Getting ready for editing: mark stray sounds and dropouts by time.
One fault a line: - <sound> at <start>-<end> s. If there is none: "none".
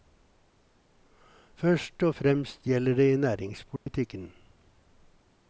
- dropout at 3.8-3.9 s